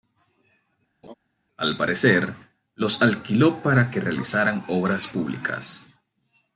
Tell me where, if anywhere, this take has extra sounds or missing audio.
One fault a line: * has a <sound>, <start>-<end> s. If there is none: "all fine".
* has a laugh, 1.0-1.1 s